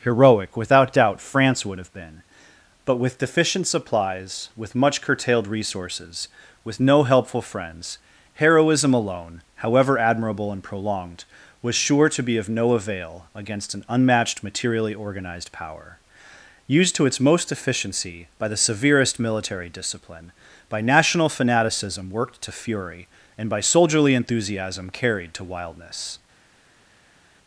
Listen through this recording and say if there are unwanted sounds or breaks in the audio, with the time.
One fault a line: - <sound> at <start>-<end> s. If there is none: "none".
none